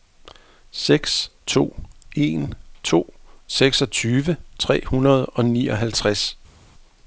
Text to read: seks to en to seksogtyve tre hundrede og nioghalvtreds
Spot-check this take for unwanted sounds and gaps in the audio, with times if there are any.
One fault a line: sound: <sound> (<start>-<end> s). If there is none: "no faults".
no faults